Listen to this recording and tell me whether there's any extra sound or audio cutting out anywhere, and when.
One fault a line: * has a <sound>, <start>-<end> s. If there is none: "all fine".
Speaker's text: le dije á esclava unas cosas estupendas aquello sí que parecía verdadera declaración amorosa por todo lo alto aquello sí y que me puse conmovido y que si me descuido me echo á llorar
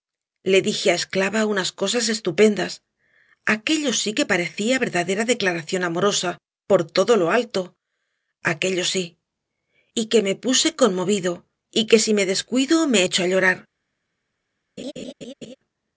* has a laugh, 14.8-15.6 s